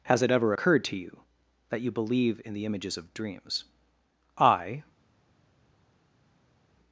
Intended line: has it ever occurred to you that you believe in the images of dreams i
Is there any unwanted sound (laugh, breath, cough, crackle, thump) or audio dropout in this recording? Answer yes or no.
no